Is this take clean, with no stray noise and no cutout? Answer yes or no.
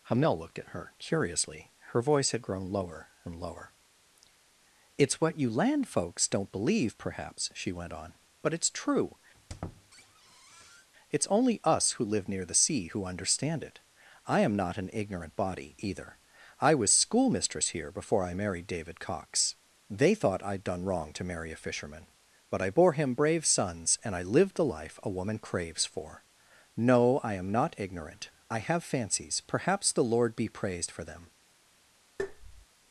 no